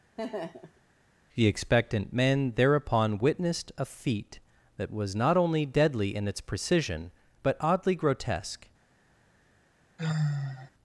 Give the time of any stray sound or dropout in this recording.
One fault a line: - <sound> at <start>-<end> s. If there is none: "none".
- laugh at 0.2-0.8 s
- sigh at 10.0-10.7 s